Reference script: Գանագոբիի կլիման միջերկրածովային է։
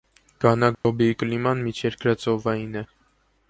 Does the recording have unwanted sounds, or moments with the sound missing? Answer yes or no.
yes